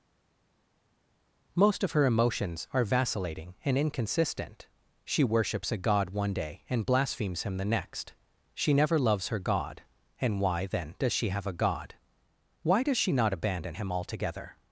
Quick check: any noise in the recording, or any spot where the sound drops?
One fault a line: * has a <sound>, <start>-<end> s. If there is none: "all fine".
all fine